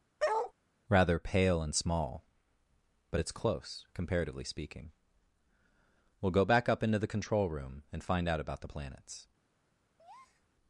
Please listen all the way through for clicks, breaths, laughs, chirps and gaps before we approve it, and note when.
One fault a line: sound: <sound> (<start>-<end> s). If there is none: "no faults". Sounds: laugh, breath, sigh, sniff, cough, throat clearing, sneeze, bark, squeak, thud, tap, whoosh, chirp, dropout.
sound: bark (0.2-0.5 s)
sound: breath (10.0-10.5 s)